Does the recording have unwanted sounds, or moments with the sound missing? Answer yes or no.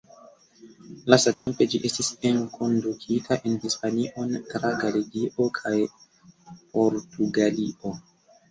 yes